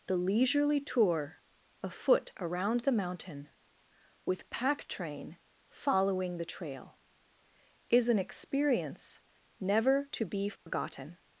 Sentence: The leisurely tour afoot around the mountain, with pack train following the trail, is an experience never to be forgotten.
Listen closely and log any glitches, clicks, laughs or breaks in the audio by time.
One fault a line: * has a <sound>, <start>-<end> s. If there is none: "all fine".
* has a dropout, 10.6-10.7 s